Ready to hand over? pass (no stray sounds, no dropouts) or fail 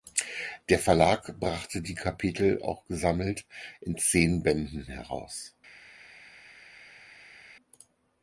pass